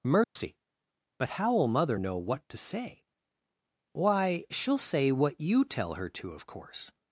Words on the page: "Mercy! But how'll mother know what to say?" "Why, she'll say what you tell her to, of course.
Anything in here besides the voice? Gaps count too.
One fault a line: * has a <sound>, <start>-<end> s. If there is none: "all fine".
* has a dropout, 0.2-0.4 s